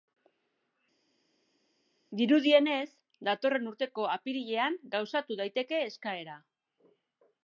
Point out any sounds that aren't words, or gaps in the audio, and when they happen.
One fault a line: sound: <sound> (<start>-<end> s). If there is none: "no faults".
no faults